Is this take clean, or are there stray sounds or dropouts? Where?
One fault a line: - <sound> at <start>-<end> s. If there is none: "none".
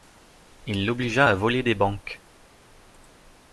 none